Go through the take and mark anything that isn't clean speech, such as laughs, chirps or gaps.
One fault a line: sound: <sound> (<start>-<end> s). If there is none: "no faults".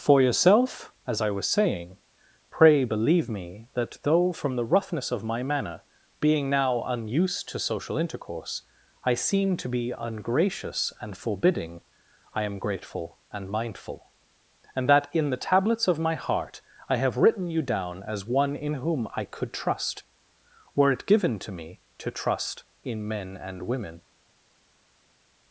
no faults